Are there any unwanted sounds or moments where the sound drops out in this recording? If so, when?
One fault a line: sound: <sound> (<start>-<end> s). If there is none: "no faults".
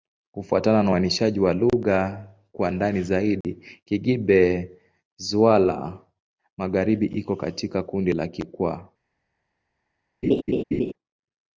sound: dropout (3.4-3.4 s)
sound: laugh (10.2-10.9 s)